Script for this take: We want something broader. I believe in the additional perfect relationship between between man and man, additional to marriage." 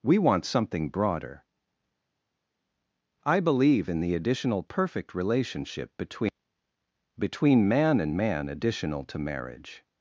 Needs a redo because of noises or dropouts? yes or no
no